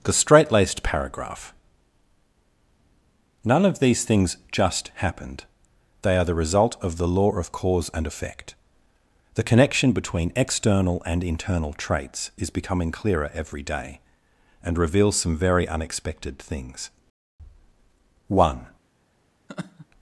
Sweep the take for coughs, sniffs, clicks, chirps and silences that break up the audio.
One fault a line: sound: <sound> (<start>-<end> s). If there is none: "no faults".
sound: laugh (19.5-19.9 s)